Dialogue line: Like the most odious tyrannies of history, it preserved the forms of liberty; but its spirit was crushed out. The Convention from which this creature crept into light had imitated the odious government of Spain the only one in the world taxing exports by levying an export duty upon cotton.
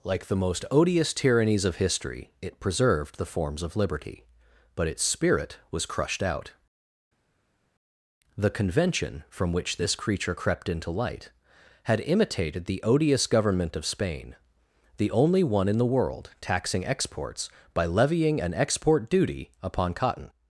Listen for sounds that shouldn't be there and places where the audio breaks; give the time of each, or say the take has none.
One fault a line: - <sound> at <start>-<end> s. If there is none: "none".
none